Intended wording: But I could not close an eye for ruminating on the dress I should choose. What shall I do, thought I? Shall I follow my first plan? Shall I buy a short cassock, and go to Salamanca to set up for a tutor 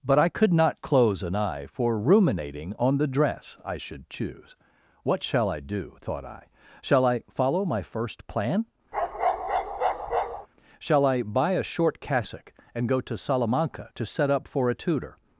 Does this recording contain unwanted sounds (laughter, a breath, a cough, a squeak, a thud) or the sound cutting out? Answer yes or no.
yes